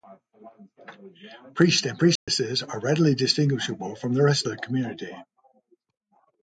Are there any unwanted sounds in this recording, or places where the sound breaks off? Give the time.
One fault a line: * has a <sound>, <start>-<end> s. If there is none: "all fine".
* has a dropout, 2.2-2.3 s